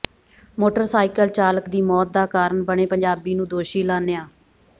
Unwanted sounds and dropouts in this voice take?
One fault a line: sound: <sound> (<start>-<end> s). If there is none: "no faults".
no faults